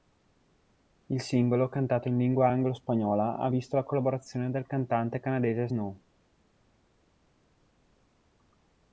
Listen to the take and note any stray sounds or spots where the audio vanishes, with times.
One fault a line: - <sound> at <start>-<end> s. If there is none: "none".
none